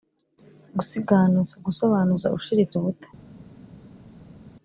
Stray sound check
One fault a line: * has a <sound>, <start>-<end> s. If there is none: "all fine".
all fine